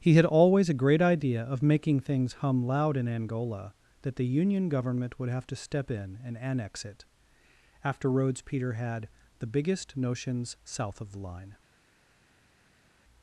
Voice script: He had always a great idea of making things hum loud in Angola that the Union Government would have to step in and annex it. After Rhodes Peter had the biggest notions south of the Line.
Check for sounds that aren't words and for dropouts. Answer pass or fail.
pass